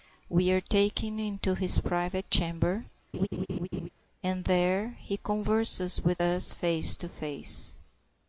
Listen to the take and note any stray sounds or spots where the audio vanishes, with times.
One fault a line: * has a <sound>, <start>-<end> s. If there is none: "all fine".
* has a laugh, 3.1-3.9 s